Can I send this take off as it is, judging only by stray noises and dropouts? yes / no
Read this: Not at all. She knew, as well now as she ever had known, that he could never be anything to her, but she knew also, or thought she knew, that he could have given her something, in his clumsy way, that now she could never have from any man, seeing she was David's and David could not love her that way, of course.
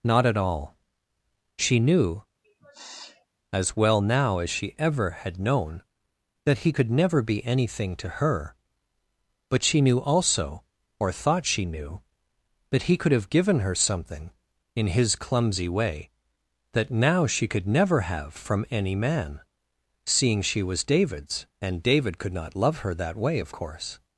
no